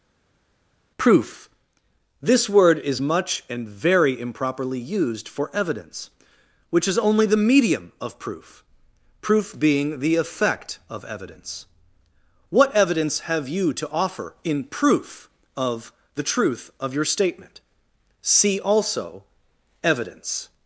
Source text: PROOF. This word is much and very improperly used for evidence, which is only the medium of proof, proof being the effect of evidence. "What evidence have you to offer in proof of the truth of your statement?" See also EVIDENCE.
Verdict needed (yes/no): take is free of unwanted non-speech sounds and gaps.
yes